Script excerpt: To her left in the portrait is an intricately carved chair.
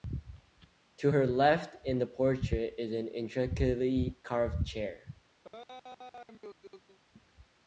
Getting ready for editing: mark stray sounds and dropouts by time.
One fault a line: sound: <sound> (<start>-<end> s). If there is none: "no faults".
sound: laugh (5.4-7.0 s)